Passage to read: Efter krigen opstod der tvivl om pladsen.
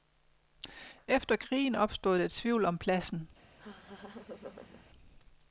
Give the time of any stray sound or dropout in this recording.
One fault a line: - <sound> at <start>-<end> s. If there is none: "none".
- laugh at 3.6-4.9 s